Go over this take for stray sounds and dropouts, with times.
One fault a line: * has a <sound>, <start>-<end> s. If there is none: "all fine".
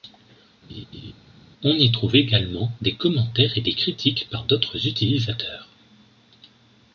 * has a laugh, 0.7-1.1 s